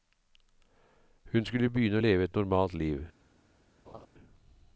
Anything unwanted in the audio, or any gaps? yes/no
yes